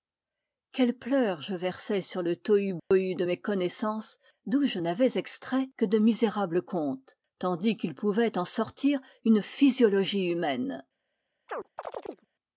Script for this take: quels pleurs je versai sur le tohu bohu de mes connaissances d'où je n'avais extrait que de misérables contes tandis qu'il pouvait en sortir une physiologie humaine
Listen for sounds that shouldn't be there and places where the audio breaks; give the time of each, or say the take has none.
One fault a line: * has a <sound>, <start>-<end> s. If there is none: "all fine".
* has a dropout, 2.8-2.9 s
* has a chirp, 11.5-12.3 s